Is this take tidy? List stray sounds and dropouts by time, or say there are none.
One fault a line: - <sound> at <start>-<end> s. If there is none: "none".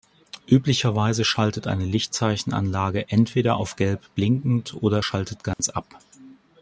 - dropout at 5.5-5.6 s